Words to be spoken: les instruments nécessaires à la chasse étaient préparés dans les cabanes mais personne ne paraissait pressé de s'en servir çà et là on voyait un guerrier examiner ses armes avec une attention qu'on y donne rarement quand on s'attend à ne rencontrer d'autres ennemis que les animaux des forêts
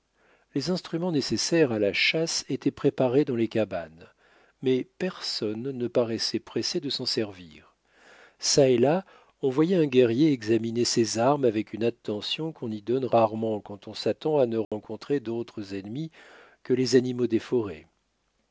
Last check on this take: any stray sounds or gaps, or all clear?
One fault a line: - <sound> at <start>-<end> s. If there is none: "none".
- dropout at 14.6-14.7 s